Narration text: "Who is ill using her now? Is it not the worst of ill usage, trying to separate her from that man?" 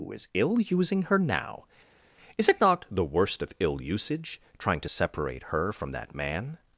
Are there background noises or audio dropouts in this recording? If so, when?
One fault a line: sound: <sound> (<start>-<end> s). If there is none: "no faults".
no faults